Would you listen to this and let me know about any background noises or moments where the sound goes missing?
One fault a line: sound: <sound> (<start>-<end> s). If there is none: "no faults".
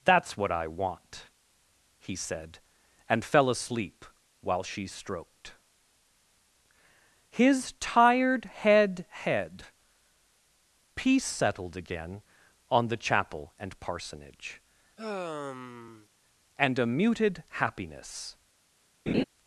sound: sigh (15.0-16.1 s)
sound: laugh (19.1-19.2 s)